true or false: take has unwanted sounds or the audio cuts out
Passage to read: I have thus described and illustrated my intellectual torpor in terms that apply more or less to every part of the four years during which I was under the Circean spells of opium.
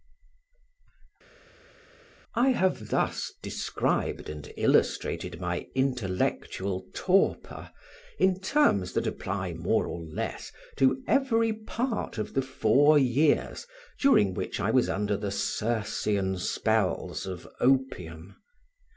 false